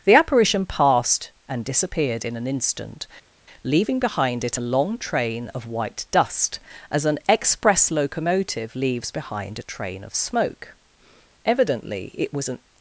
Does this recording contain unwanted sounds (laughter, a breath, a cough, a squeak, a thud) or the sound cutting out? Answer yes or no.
no